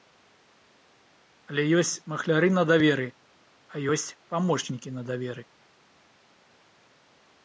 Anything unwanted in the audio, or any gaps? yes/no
no